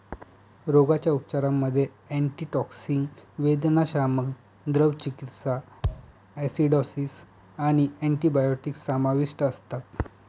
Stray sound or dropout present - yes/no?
yes